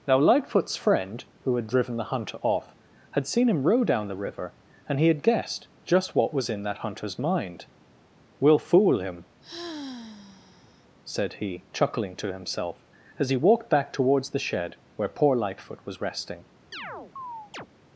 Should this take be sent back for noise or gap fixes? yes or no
yes